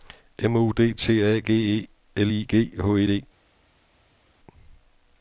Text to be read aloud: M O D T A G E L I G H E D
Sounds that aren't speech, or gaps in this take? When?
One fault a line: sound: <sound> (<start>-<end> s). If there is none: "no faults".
no faults